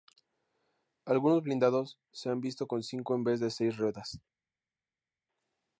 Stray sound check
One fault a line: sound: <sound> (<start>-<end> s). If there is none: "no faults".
no faults